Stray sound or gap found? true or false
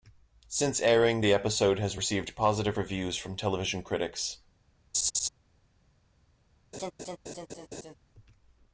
true